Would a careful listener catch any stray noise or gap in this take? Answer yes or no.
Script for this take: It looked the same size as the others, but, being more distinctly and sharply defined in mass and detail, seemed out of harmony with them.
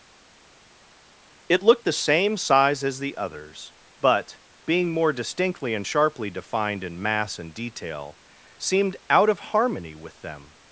no